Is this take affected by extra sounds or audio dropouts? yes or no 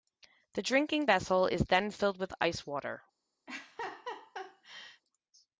yes